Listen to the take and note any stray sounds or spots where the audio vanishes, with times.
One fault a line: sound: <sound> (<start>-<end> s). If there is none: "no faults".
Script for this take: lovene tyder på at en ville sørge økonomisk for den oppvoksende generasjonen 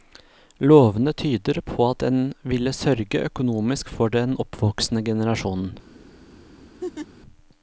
sound: laugh (6.8-7.1 s)